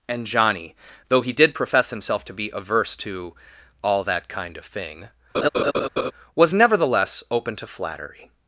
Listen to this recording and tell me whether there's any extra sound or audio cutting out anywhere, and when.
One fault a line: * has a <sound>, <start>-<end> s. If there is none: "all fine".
* has a laugh, 5.3-6.1 s